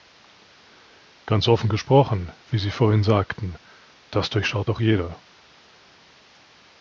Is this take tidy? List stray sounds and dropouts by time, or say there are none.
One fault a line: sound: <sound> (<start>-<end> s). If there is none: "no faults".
no faults